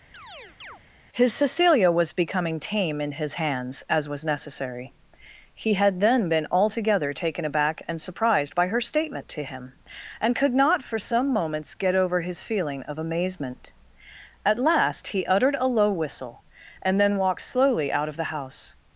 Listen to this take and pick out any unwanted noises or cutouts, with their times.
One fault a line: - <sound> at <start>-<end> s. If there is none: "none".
- chirp at 0.1-0.8 s